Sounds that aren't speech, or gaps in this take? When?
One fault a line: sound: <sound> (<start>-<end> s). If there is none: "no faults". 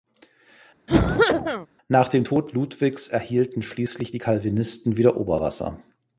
sound: cough (0.9-1.7 s)